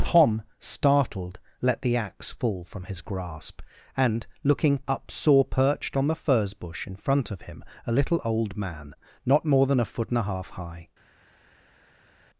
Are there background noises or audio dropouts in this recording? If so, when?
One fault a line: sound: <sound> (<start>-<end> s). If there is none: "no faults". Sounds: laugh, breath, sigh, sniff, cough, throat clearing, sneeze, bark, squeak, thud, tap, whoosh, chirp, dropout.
no faults